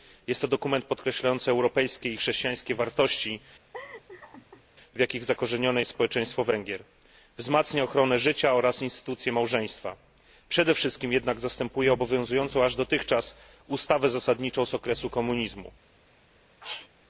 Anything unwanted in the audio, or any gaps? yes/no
yes